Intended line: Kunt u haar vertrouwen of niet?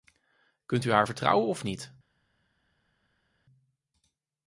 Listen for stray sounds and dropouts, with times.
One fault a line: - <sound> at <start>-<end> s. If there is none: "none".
none